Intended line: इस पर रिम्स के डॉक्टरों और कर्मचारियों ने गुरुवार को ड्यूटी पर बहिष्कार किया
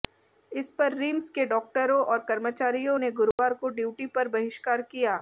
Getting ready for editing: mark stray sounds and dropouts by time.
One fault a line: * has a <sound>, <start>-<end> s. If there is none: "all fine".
* has a dropout, 3.3-3.4 s